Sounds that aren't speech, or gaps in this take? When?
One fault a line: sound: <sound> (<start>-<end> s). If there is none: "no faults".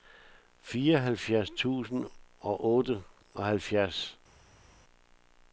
no faults